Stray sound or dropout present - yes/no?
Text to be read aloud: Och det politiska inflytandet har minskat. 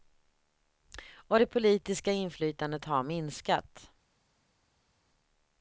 no